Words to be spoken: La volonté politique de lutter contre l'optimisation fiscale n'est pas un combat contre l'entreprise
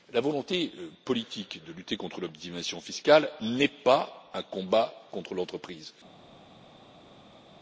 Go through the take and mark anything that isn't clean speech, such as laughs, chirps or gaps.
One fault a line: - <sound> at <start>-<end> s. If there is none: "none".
none